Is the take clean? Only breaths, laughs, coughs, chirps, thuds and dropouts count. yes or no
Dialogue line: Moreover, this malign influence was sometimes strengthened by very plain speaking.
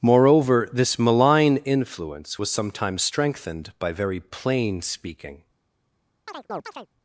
no